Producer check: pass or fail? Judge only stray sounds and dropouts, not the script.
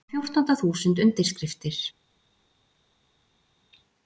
pass